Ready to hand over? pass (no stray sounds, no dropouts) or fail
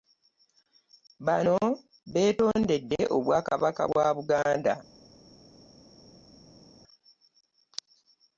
pass